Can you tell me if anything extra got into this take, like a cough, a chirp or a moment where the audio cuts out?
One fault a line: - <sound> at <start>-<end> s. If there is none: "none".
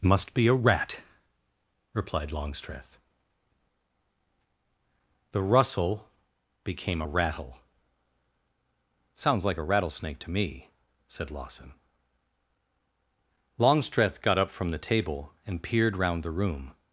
none